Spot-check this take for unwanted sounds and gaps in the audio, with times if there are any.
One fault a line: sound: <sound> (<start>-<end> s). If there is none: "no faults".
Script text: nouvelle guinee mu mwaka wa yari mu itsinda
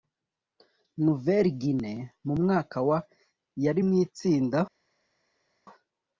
no faults